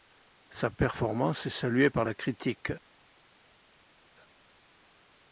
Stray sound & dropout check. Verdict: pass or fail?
pass